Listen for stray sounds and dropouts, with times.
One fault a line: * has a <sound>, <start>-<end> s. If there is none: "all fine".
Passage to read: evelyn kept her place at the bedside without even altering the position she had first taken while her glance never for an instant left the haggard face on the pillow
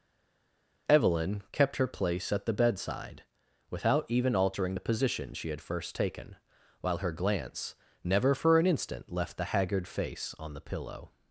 all fine